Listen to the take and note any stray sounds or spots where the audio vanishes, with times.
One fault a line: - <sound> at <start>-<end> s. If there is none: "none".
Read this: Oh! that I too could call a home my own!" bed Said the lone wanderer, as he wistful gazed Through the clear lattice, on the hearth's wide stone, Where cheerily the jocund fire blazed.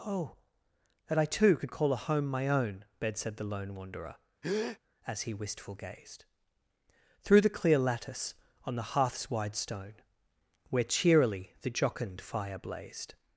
- breath at 4.4-4.8 s